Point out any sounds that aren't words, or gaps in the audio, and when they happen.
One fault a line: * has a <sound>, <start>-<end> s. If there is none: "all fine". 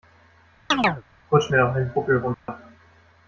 * has a chirp, 0.7-1.0 s
* has a dropout, 2.3-2.5 s